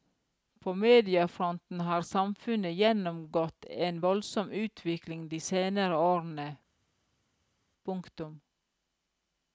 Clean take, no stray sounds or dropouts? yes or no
yes